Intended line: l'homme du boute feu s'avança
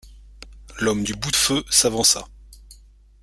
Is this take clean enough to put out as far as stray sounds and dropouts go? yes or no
yes